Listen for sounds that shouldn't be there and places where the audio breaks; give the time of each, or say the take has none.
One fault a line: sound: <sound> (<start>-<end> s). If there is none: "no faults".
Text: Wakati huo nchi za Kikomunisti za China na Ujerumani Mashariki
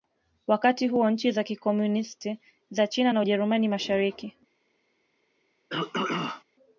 sound: throat clearing (5.7-6.4 s)